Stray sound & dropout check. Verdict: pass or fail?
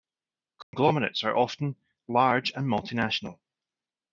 fail